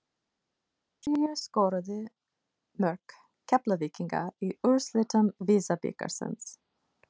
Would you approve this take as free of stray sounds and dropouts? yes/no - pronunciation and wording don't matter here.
yes